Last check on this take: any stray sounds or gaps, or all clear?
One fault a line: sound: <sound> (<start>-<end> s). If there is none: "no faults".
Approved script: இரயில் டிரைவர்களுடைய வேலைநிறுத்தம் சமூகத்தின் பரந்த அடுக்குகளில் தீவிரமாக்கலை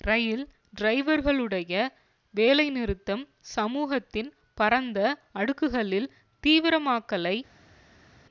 no faults